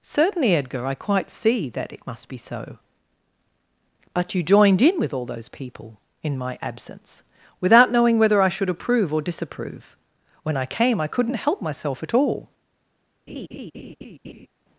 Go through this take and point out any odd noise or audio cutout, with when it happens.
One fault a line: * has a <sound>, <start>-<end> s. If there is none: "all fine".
* has a laugh, 13.3-14.5 s